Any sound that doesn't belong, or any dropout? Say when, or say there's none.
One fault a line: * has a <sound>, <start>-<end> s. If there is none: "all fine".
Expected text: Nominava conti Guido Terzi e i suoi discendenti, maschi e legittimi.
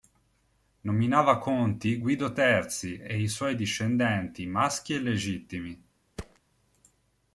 * has a thud, 6.2-6.4 s